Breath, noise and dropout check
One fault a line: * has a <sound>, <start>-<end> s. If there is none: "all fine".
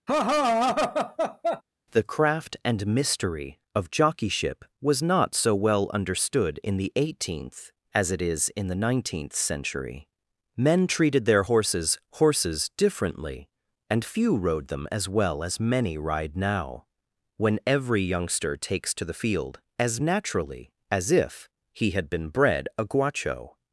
* has a laugh, 0.1-1.6 s